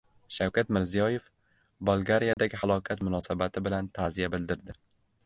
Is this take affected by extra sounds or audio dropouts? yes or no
yes